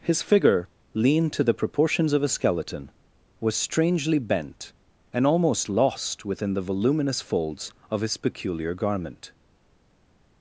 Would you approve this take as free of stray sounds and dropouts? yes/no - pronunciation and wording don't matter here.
yes